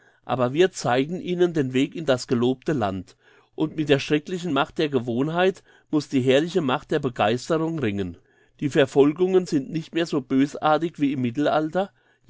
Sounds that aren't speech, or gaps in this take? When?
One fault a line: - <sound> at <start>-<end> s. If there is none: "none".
none